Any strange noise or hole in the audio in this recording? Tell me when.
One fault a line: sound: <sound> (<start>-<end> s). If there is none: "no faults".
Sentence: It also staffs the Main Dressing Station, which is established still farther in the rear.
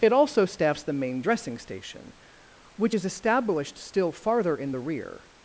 no faults